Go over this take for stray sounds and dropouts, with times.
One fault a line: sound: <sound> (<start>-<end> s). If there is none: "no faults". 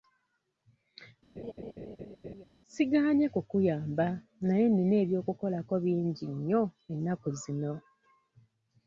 sound: laugh (1.4-2.4 s)